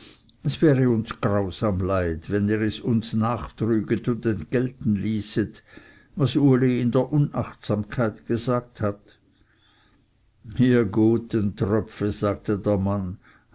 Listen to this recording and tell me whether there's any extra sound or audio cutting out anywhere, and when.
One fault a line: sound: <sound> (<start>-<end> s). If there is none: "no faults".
no faults